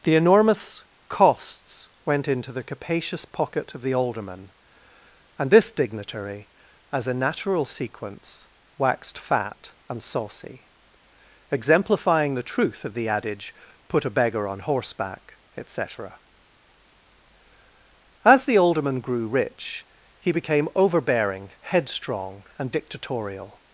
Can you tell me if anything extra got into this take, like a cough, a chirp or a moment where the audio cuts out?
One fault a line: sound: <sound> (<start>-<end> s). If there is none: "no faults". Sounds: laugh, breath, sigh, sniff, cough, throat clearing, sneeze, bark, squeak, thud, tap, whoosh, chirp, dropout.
no faults